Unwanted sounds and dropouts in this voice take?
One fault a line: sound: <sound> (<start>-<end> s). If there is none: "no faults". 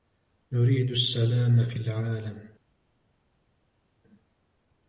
no faults